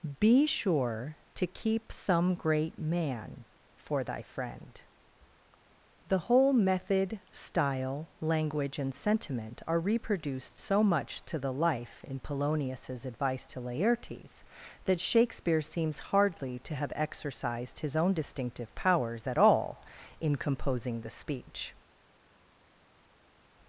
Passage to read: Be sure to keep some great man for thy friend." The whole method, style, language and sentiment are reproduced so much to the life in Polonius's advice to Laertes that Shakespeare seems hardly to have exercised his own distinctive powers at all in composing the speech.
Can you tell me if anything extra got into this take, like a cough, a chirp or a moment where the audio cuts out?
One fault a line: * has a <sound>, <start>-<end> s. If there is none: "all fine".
all fine